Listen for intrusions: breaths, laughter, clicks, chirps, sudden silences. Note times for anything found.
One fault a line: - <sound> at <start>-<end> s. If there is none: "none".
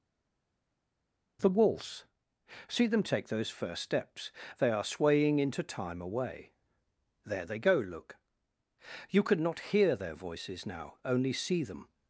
none